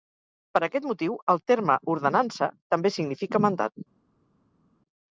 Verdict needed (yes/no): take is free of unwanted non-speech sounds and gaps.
yes